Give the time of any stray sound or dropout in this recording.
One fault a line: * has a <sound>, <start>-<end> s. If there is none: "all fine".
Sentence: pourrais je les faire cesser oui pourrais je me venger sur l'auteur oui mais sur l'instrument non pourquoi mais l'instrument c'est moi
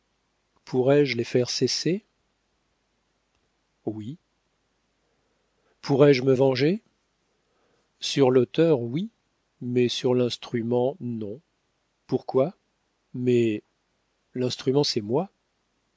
all fine